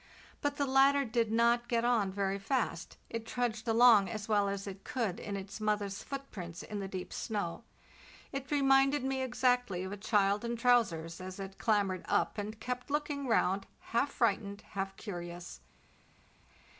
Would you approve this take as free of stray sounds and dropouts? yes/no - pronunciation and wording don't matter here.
yes